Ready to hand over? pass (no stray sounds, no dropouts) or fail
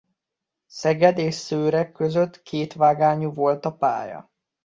pass